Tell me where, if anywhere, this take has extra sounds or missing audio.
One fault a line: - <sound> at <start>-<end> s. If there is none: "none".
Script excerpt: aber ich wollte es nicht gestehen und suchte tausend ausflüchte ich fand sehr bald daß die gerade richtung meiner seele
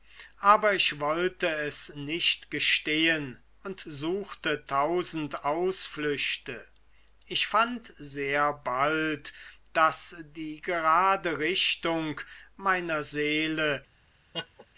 - laugh at 14.3-14.7 s